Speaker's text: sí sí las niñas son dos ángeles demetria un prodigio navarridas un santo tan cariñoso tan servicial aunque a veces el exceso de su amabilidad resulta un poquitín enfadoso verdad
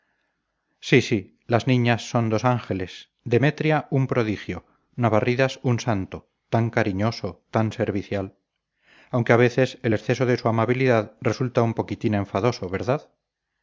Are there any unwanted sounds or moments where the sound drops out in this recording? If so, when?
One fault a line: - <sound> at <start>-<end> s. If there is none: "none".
none